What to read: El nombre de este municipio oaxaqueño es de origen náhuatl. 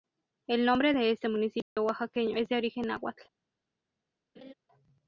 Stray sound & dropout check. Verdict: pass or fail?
fail